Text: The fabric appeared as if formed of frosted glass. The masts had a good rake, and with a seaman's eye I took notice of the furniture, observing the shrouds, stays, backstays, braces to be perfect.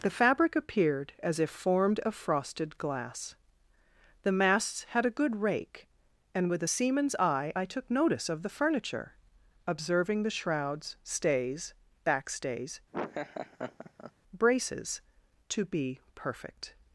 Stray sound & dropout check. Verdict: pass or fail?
fail